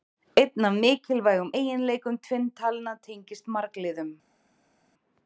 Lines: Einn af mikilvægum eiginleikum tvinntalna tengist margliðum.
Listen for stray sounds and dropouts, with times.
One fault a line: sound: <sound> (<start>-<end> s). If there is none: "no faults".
no faults